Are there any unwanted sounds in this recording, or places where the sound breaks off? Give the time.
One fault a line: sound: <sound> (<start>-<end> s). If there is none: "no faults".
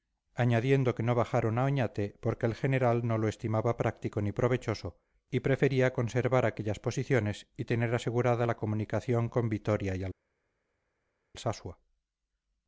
no faults